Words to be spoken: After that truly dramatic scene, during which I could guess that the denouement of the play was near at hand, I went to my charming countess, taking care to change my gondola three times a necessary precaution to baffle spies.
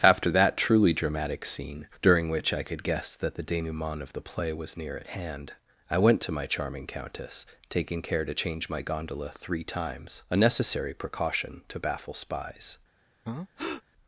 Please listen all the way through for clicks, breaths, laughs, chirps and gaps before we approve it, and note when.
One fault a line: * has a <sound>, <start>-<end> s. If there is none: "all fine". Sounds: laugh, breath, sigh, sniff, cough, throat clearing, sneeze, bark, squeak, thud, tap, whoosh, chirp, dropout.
* has a breath, 13.2-13.8 s